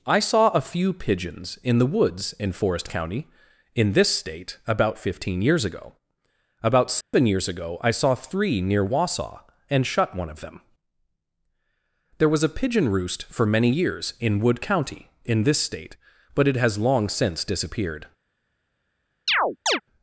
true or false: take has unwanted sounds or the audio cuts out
true